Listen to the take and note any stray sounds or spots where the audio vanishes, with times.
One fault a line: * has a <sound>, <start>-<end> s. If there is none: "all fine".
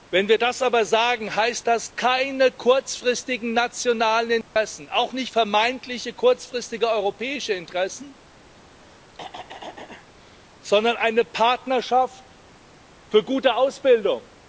* has a dropout, 4.4-4.6 s
* has a throat clearing, 8.7-10.1 s